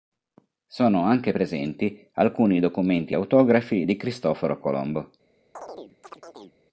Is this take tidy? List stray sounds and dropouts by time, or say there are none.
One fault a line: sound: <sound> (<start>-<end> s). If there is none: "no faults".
sound: chirp (5.5-6.6 s)